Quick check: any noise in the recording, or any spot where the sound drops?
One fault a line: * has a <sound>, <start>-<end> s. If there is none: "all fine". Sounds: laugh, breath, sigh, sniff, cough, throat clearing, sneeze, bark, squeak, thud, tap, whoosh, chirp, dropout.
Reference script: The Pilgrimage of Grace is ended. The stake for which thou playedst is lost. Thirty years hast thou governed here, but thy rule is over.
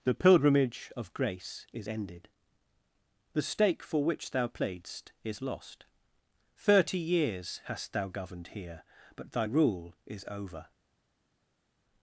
all fine